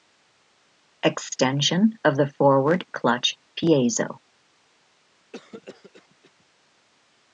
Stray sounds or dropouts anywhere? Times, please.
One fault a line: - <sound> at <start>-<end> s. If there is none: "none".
- cough at 5.3-6.5 s